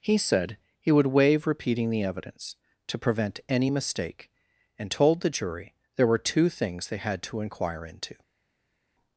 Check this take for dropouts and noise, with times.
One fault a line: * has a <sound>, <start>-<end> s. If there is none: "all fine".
all fine